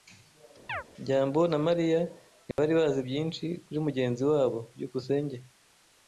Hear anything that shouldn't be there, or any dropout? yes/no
yes